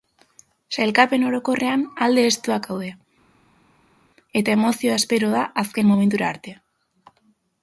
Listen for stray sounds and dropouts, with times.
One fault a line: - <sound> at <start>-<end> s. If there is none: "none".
none